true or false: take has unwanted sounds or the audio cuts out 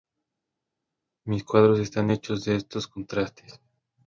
false